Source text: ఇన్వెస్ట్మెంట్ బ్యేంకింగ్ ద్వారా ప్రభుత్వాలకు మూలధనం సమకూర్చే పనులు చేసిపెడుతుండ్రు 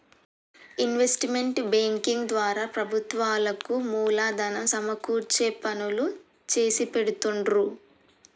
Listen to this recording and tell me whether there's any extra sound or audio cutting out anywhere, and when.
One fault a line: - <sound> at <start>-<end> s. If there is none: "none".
none